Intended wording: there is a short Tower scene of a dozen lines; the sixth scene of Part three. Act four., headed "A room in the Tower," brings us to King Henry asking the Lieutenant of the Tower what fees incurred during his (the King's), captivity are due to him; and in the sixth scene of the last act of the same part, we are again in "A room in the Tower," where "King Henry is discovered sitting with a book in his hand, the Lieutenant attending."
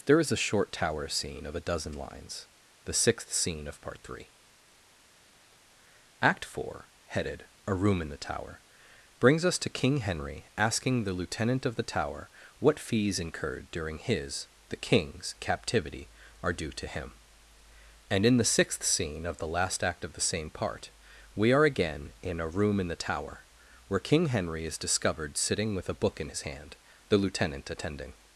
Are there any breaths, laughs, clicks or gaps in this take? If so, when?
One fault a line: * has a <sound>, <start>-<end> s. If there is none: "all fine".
all fine